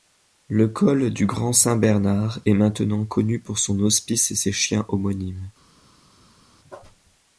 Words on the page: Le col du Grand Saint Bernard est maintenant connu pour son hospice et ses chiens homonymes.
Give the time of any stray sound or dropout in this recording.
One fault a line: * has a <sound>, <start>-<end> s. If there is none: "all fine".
all fine